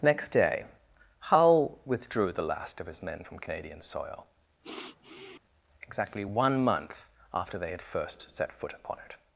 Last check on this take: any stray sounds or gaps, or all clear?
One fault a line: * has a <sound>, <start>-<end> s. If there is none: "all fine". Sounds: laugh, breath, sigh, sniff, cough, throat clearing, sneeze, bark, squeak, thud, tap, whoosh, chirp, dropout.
* has a sniff, 4.6-5.4 s